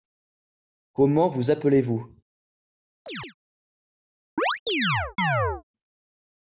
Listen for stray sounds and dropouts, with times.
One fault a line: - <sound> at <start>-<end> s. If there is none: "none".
- chirp at 3.1-3.3 s
- chirp at 4.4-5.6 s